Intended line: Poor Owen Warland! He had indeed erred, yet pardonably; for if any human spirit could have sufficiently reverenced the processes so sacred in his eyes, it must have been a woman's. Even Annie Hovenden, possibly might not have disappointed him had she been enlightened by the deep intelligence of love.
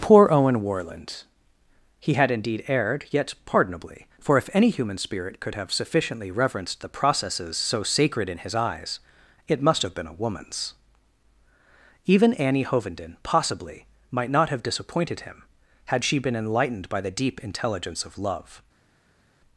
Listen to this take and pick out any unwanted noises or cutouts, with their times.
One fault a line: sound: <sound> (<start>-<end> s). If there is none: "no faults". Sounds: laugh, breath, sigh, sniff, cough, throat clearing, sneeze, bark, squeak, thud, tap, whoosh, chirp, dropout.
no faults